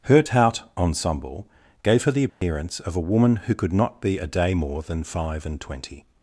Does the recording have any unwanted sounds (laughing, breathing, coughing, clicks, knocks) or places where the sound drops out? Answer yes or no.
yes